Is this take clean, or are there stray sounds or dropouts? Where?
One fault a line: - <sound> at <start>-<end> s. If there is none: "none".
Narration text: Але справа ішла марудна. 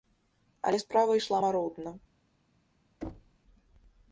- thud at 3.0-3.4 s